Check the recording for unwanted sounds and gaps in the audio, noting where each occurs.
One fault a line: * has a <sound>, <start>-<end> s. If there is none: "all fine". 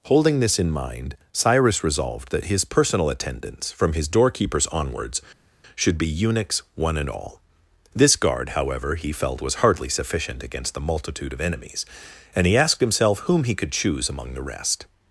all fine